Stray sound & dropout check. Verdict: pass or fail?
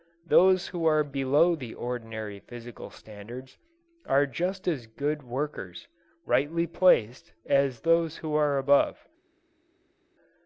pass